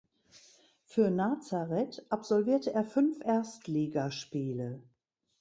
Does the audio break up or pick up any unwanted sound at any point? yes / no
no